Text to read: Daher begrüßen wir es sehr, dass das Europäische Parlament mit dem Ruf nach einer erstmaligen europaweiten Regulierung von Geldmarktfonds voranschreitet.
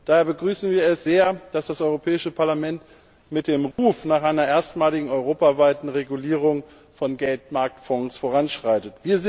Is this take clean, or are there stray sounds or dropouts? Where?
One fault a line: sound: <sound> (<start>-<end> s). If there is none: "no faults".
sound: dropout (3.7-3.8 s)